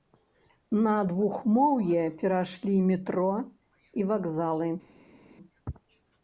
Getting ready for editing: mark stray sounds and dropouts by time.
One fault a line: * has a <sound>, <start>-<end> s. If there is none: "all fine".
all fine